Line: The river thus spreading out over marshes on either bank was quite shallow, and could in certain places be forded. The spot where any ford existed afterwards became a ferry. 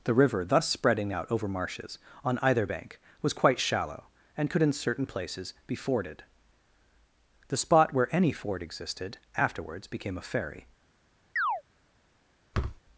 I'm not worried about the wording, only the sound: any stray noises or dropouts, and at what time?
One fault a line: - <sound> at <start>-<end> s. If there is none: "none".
- chirp at 11.4-11.6 s
- thud at 12.5-12.8 s